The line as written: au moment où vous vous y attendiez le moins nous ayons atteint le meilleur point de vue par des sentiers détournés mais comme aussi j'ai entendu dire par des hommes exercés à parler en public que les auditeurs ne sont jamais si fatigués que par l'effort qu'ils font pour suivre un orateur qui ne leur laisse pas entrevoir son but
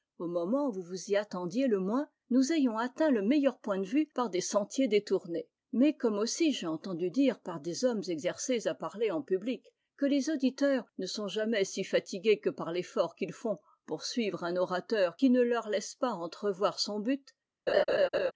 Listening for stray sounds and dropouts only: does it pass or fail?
fail